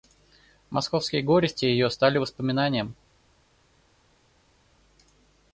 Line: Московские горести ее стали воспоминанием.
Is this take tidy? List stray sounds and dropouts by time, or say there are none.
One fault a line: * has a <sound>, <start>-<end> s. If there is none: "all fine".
all fine